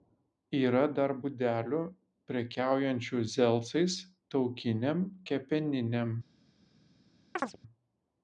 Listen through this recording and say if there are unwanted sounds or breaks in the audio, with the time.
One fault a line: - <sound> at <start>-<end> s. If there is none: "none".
- chirp at 7.4-7.6 s